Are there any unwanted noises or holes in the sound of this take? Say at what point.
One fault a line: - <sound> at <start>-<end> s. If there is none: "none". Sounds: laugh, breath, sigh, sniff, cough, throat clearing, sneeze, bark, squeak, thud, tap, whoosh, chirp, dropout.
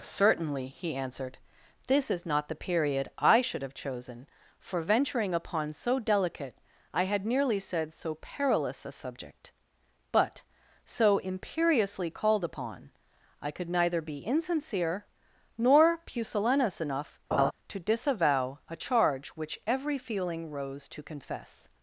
- laugh at 17.3-17.5 s